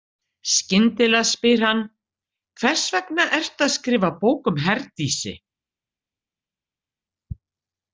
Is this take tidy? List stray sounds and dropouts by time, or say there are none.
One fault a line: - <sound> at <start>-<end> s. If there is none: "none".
none